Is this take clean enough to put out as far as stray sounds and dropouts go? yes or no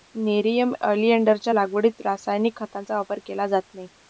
yes